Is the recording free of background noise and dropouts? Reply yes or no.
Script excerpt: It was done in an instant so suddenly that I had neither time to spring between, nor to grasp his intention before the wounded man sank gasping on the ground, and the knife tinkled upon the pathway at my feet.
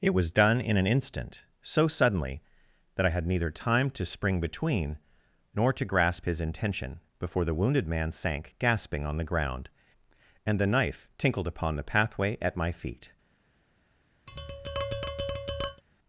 no